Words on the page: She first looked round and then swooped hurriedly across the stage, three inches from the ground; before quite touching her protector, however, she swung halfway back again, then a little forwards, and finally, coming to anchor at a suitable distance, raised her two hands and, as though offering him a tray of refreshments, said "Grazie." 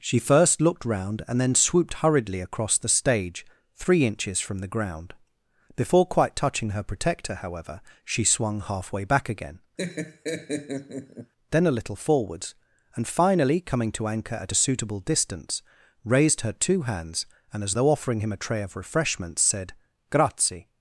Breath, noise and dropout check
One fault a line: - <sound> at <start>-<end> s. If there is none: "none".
- laugh at 9.8-11.3 s